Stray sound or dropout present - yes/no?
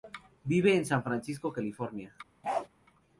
yes